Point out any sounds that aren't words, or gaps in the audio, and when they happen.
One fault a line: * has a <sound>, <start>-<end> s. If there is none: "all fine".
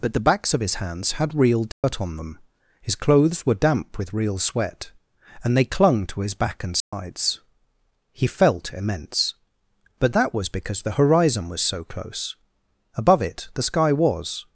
* has a dropout, 1.7-1.8 s
* has a dropout, 6.8-6.9 s